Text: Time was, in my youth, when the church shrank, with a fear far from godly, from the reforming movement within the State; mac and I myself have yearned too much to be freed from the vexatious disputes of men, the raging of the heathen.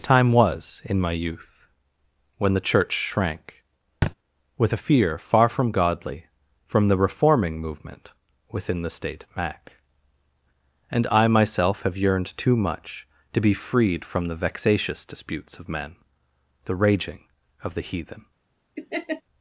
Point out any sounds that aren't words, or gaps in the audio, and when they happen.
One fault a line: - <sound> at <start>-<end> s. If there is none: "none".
- thud at 4.0-4.1 s
- laugh at 18.8-19.2 s